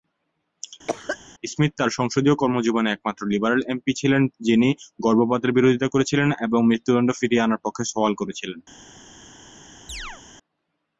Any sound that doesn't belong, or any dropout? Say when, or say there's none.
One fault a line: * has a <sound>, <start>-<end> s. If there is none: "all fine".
* has a cough, 0.9-1.2 s
* has a chirp, 9.9-10.2 s